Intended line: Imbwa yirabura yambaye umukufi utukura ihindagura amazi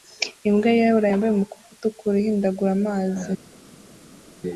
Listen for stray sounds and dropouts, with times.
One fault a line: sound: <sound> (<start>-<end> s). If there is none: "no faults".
no faults